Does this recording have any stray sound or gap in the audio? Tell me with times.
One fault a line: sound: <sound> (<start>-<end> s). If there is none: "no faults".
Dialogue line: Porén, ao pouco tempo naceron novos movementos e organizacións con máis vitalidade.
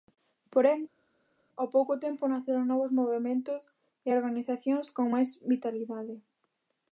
no faults